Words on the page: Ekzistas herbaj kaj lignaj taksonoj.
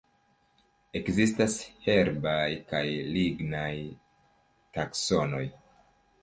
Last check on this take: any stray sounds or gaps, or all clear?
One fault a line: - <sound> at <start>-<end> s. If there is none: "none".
none